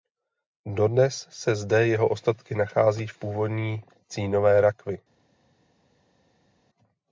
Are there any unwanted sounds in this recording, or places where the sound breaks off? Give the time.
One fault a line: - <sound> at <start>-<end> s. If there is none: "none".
none